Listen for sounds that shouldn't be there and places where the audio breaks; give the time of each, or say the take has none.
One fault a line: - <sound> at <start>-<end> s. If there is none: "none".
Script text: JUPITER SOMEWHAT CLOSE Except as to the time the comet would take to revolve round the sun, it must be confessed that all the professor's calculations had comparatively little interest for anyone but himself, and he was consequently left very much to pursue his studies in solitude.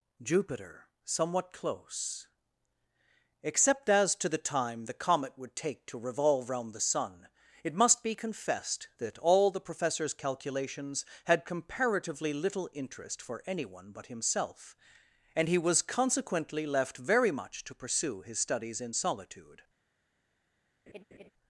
- laugh at 20.9-21.3 s